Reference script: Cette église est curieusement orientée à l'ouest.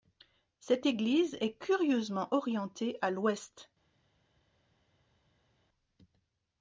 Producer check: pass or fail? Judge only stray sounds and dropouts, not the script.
pass